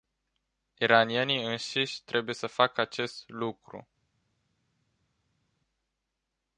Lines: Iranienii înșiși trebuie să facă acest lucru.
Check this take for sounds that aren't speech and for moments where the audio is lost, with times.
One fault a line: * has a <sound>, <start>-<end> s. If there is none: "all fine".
all fine